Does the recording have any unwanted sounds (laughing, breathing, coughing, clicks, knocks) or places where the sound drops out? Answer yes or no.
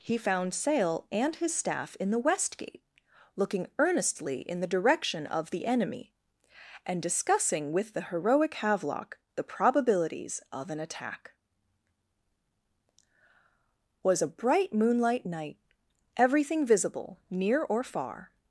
no